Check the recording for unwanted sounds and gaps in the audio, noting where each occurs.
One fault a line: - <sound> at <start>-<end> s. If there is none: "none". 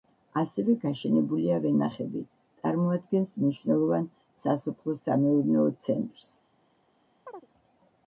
- chirp at 7.3-7.5 s